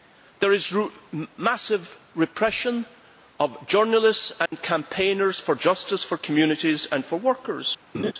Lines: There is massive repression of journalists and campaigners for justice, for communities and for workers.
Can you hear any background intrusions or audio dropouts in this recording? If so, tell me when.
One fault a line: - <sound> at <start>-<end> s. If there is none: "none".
- dropout at 4.5-4.5 s
- laugh at 7.9-8.1 s